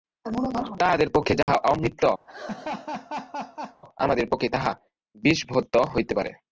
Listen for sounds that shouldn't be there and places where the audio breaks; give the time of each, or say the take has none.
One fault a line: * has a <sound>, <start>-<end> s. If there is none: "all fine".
* has a dropout, 1.4-1.5 s
* has a laugh, 2.3-3.8 s